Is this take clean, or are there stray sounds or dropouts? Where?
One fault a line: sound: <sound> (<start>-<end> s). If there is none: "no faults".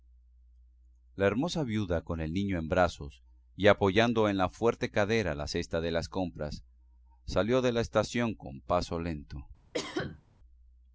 sound: cough (9.7-10.2 s)